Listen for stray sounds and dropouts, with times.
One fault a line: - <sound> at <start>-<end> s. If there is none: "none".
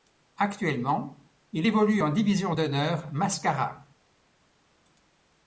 none